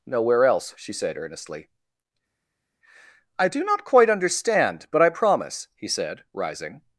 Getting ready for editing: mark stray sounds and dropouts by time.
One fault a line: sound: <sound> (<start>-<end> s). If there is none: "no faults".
no faults